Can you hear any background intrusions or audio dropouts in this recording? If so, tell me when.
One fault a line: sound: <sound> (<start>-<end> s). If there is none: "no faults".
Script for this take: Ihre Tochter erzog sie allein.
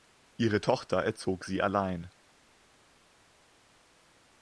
no faults